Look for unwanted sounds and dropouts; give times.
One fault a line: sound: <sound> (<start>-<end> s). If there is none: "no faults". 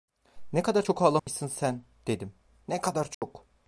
sound: dropout (1.2-1.3 s)
sound: dropout (3.1-3.2 s)